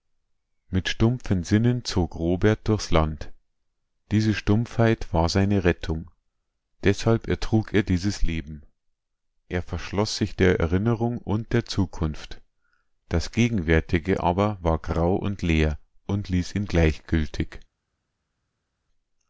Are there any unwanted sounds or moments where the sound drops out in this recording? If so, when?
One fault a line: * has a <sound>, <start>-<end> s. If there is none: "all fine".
all fine